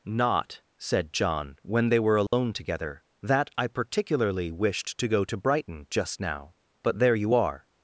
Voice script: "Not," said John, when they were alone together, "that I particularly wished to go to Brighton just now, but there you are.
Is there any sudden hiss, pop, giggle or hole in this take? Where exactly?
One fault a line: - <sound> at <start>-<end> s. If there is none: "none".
- dropout at 2.3-2.3 s